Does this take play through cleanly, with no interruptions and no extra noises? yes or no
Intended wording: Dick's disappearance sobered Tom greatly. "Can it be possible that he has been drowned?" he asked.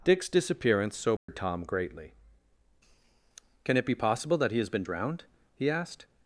no